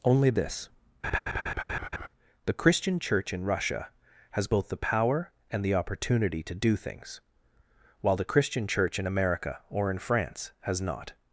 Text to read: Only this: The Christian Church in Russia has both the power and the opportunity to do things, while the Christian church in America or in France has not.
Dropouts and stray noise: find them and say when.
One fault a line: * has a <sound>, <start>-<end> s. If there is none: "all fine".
* has a laugh, 1.0-2.1 s